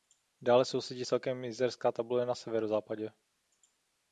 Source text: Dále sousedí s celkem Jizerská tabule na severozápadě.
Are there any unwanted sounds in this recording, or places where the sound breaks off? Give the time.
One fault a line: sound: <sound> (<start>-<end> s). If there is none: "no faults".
no faults